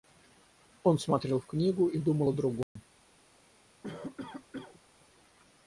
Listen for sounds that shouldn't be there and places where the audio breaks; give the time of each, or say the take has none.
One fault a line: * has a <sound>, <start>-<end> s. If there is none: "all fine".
* has a dropout, 2.6-2.8 s
* has a cough, 3.8-4.8 s